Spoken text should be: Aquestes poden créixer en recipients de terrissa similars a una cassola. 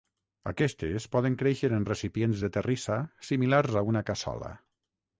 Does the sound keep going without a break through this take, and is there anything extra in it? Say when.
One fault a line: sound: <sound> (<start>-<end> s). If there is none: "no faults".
no faults